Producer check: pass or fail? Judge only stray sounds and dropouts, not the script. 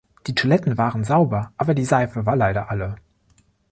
pass